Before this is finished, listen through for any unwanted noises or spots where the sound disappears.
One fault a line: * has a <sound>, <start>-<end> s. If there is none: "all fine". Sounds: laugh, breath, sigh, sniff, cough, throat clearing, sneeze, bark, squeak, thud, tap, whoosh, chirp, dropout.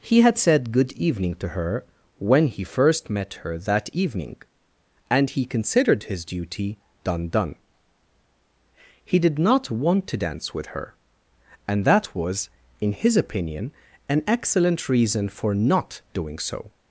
all fine